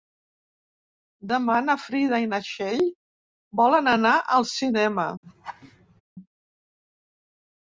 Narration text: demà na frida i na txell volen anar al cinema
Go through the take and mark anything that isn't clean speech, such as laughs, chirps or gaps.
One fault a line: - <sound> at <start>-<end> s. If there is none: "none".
- laugh at 5.2-6.0 s